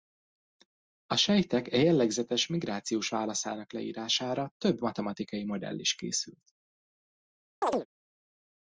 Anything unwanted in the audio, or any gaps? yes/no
yes